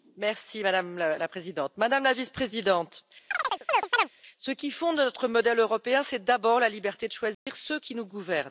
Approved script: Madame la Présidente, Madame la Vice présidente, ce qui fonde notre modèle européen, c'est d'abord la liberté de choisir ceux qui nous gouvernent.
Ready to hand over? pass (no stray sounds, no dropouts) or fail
fail